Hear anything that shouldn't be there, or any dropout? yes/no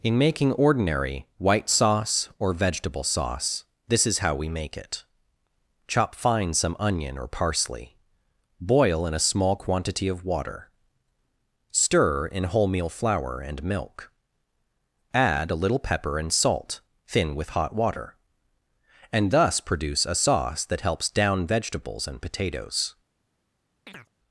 yes